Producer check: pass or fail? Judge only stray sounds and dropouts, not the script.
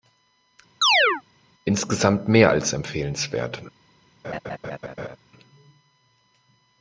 fail